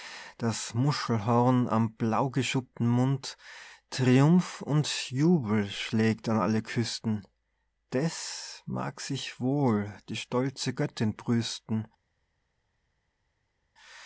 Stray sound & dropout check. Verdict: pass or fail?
pass